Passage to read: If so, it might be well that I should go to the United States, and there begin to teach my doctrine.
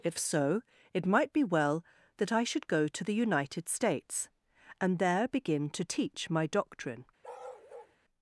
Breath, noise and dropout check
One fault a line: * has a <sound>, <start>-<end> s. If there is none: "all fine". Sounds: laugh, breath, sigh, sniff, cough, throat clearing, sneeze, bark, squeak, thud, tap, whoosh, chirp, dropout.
* has a bark, 7.2-8.0 s